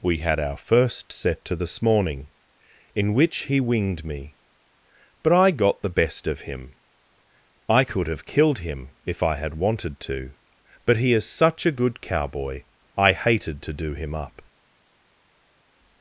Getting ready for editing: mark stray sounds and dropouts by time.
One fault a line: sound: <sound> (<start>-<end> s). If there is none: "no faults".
no faults